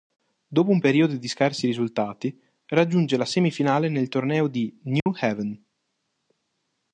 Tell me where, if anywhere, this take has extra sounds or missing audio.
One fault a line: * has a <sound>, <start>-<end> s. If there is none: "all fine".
* has a dropout, 5.0-5.1 s